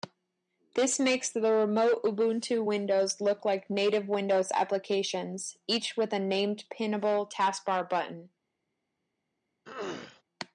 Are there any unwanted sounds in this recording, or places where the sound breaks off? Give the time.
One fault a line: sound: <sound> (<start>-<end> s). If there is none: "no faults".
sound: throat clearing (9.6-10.2 s)